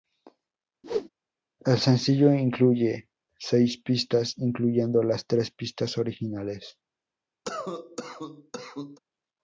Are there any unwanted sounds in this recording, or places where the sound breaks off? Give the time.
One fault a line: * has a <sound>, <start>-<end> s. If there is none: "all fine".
* has a whoosh, 0.8-1.1 s
* has a cough, 7.4-9.0 s